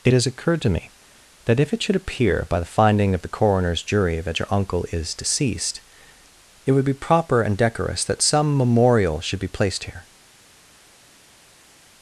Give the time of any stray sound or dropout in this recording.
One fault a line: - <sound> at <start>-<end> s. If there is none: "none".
none